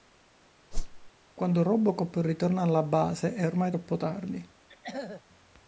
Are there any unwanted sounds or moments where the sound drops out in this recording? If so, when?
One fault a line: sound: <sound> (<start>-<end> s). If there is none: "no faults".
sound: whoosh (0.7-1.1 s)
sound: throat clearing (4.7-5.2 s)